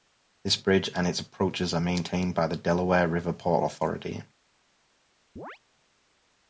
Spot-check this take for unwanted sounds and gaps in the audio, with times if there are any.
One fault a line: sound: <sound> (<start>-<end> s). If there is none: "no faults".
sound: chirp (5.4-5.6 s)